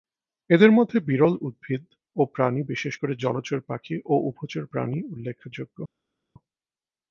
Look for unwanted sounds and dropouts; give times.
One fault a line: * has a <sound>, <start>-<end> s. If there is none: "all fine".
all fine